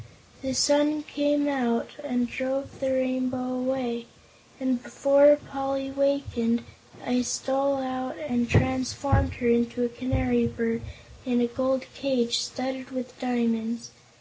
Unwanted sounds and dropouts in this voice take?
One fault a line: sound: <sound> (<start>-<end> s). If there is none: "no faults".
no faults